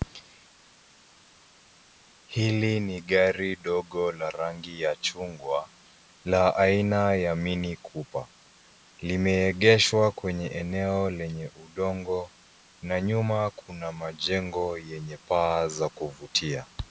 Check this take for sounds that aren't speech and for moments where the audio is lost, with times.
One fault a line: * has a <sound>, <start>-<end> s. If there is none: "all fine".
all fine